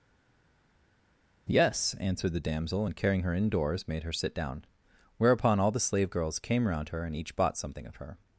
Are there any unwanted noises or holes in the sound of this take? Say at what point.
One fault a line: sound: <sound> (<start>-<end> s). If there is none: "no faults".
no faults